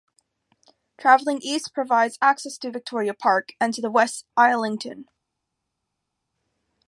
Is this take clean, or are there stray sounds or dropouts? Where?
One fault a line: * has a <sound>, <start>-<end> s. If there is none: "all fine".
all fine